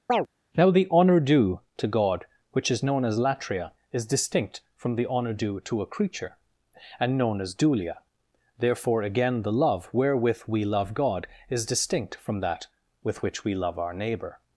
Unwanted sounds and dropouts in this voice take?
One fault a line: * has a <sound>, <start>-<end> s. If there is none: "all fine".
* has a chirp, 0.1-0.3 s